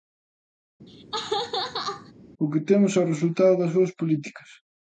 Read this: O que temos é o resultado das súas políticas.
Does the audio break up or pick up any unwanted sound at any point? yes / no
yes